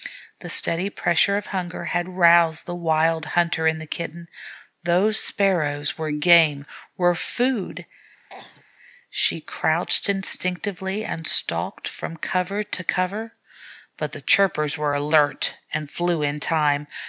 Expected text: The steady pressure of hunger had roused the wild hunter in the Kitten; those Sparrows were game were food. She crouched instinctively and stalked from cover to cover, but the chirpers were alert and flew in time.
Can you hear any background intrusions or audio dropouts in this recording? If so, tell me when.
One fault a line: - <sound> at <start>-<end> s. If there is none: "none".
- cough at 8.3-8.6 s